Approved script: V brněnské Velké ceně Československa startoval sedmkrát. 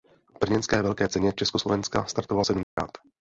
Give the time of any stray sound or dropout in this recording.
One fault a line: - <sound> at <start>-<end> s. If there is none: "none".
- dropout at 2.6-2.8 s